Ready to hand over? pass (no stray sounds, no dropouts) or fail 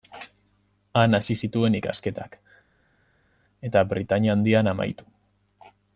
pass